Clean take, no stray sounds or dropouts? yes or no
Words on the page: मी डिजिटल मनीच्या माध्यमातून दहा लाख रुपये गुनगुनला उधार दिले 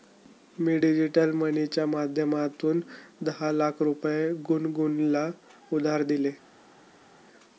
yes